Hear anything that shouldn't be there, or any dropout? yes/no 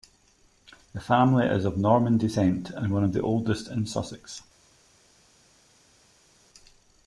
no